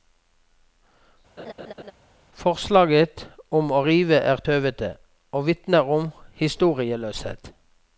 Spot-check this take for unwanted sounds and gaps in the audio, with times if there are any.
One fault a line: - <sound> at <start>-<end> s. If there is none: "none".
- laugh at 1.4-1.9 s